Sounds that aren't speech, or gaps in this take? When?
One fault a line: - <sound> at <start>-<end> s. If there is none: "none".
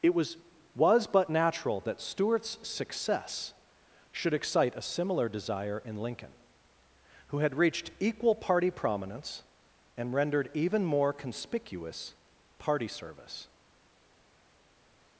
none